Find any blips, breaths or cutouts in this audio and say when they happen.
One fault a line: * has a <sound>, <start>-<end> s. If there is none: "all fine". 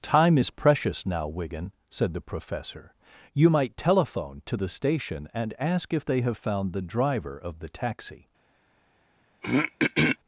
* has a throat clearing, 9.4-10.2 s